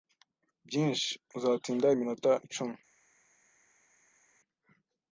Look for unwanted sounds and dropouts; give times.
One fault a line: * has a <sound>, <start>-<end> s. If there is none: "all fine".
all fine